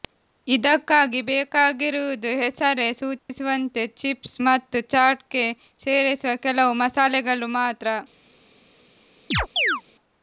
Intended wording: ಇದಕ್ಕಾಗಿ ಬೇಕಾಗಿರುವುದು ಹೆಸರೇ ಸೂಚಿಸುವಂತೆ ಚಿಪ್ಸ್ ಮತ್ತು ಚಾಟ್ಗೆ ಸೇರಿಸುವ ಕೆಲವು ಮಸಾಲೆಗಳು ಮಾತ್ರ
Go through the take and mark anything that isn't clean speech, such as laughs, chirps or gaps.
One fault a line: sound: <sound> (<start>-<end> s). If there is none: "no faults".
sound: dropout (3.2-3.3 s)
sound: chirp (9.3-9.8 s)